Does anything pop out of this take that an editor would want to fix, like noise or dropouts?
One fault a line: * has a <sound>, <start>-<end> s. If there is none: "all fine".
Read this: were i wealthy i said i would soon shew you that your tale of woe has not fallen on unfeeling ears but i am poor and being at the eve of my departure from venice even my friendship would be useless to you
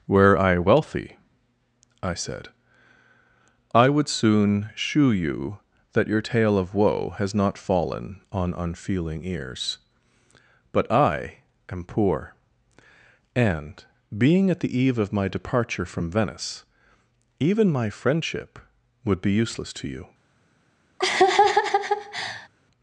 * has a laugh, 21.0-22.5 s